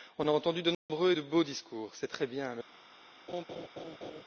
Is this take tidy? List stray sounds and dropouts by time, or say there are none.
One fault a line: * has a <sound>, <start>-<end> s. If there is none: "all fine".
* has a dropout, 0.7-0.9 s
* has a laugh, 3.3-4.2 s